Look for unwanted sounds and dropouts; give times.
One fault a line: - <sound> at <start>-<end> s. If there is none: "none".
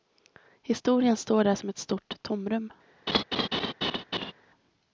- laugh at 3.1-4.3 s